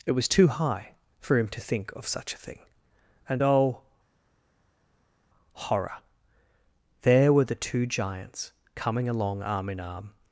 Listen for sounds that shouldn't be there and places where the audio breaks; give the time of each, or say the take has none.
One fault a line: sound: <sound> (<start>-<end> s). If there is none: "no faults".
no faults